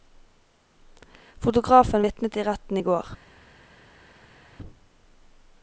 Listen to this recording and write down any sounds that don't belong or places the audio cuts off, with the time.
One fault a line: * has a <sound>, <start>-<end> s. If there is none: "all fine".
all fine